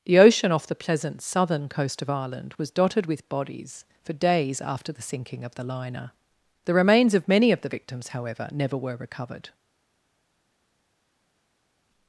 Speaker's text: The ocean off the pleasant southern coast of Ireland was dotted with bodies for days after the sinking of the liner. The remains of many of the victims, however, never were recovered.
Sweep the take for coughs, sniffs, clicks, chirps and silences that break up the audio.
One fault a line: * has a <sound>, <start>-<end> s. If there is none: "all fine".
all fine